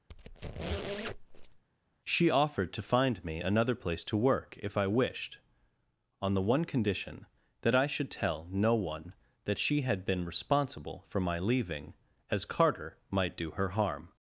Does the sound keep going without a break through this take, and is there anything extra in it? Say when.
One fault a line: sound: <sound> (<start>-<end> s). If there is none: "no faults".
sound: squeak (0.1-1.6 s)